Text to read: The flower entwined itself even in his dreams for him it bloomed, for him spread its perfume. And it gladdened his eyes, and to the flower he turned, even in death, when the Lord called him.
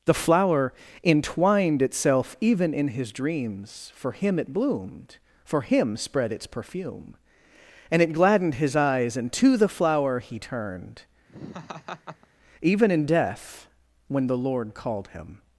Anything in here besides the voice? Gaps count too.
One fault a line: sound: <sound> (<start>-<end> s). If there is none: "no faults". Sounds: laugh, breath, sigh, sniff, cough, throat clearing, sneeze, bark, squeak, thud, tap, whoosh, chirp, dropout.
sound: laugh (11.3-12.3 s)